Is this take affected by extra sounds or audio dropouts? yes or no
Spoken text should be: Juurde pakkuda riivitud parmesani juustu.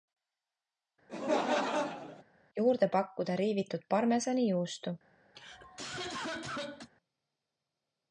yes